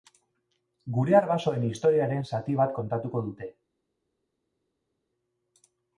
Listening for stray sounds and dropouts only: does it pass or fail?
pass